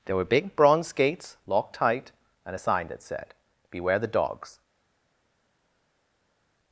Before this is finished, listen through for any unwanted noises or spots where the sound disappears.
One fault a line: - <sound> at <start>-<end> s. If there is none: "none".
none